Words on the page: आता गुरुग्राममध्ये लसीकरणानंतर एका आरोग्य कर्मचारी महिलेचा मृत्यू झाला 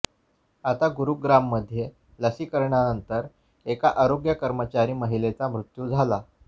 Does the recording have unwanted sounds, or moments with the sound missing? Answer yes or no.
no